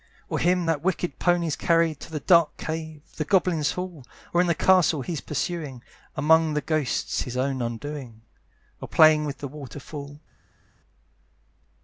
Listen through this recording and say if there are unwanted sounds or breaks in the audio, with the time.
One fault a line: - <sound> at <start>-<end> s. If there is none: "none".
none